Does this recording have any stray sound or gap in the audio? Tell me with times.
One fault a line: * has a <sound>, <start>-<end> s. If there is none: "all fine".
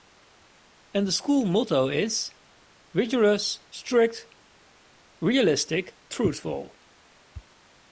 all fine